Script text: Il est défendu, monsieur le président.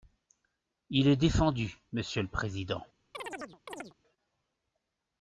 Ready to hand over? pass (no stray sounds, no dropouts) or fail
fail